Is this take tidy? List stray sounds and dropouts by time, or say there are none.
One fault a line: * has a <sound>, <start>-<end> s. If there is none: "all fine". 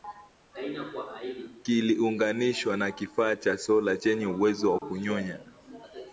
* has a dropout, 4.8-4.8 s